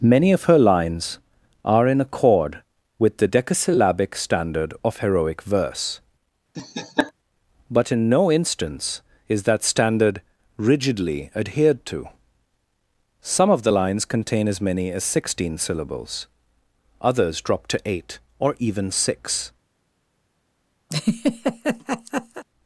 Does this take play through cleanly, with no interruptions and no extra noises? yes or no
no